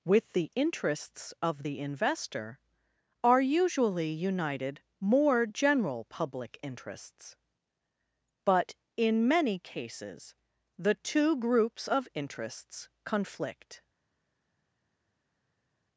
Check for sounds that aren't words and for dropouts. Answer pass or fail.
pass